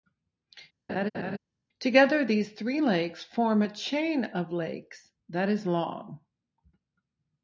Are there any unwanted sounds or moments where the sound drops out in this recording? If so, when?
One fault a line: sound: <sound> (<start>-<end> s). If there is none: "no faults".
sound: laugh (0.9-1.4 s)